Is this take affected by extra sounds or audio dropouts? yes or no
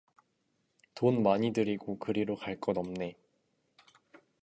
no